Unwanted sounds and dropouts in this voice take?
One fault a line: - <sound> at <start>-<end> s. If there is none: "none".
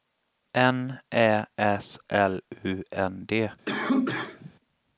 - cough at 3.7-4.5 s